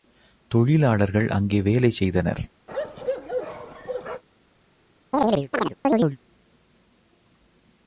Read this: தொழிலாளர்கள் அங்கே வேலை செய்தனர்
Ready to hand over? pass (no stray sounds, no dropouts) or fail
fail